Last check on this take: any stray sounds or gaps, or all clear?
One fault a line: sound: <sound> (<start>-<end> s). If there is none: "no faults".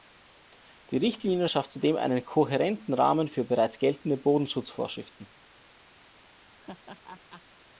sound: laugh (6.5-7.4 s)